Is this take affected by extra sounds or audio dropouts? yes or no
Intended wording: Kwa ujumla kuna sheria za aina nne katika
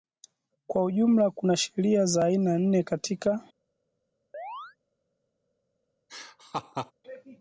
yes